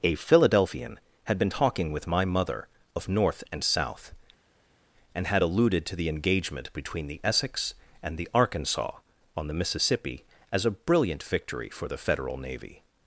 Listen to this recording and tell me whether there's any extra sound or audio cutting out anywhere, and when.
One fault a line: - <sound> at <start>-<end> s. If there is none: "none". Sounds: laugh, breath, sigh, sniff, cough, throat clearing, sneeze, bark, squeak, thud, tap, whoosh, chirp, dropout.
none